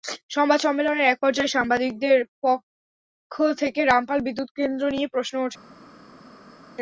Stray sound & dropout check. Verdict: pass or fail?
pass